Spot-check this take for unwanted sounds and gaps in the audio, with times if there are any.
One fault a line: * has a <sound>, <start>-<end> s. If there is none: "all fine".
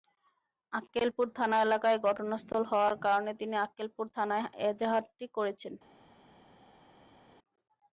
all fine